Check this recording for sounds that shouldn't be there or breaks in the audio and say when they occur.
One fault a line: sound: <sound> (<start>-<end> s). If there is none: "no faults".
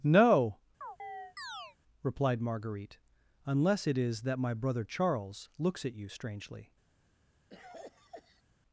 sound: chirp (0.8-1.8 s)
sound: cough (7.5-8.4 s)